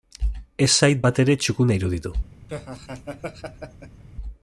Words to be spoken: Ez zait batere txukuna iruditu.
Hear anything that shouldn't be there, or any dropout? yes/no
yes